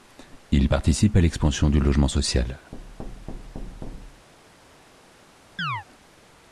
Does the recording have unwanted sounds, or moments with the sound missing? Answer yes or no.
yes